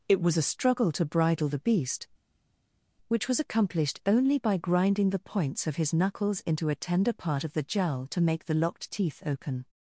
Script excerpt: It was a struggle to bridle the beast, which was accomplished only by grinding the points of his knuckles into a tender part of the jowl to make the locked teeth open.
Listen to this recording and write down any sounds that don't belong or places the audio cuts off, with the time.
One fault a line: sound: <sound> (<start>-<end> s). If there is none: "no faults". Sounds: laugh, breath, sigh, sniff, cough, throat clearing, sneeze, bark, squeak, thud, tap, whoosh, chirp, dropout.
no faults